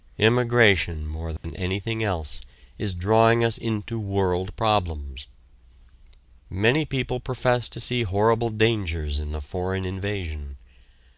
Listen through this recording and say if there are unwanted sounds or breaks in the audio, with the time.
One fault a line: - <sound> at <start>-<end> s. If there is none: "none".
- dropout at 1.4-1.4 s